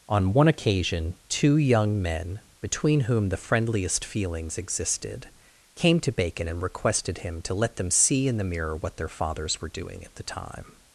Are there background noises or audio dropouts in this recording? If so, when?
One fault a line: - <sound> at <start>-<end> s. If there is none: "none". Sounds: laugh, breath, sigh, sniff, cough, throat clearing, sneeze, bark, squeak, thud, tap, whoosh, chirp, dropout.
none